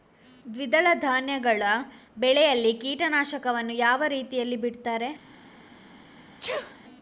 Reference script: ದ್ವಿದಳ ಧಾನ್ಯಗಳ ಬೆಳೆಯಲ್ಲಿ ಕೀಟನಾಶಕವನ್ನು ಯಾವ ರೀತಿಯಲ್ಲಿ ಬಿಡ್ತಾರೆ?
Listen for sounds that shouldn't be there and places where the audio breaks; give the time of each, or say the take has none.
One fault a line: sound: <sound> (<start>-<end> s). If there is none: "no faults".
sound: sneeze (6.4-6.8 s)